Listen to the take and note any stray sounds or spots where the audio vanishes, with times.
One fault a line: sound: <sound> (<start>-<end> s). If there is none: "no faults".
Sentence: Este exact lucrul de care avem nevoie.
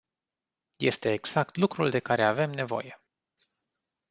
no faults